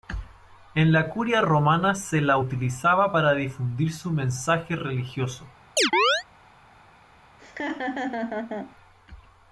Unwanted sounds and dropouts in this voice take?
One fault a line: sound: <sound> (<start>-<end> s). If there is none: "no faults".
sound: chirp (5.8-6.2 s)
sound: laugh (7.4-8.8 s)